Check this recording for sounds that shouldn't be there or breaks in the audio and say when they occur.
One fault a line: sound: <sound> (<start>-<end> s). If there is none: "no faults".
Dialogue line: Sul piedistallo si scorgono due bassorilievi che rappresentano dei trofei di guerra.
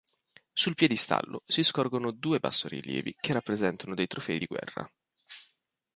no faults